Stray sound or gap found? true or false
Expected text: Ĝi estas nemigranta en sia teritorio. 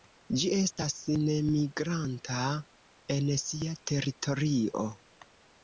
false